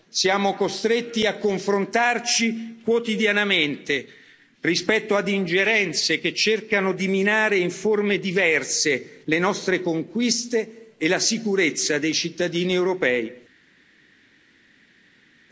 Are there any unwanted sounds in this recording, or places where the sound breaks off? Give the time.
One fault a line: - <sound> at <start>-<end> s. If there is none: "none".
none